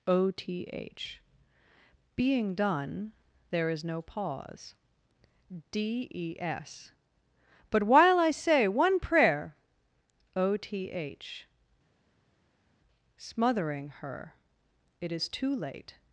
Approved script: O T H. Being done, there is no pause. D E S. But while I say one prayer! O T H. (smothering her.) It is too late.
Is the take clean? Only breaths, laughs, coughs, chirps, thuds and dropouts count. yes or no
yes